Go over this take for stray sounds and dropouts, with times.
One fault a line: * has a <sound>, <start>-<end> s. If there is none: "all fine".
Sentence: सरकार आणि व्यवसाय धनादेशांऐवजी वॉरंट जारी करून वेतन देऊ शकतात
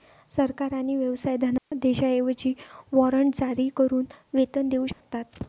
* has a dropout, 1.6-1.7 s
* has a dropout, 4.9-5.0 s